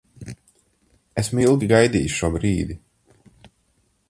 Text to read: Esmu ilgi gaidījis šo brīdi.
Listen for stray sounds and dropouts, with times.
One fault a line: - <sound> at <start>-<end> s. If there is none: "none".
none